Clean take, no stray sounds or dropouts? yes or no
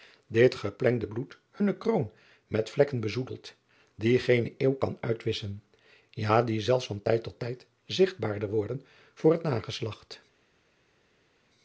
yes